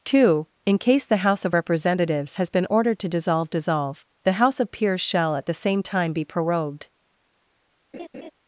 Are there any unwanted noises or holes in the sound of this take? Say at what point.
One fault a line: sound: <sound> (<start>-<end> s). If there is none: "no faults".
sound: laugh (7.9-8.3 s)